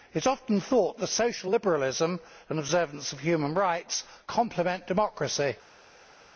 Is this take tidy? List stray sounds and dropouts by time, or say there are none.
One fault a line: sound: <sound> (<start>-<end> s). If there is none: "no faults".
no faults